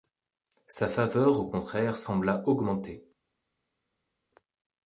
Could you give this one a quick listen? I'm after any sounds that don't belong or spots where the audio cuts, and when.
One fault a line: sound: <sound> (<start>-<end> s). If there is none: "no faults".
no faults